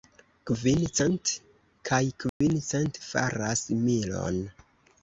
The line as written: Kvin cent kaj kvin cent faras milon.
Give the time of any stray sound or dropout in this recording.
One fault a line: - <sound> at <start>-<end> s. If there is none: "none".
- dropout at 2.3-2.4 s